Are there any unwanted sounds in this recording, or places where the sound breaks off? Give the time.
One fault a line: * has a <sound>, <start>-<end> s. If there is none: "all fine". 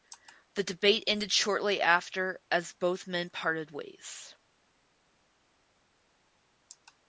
all fine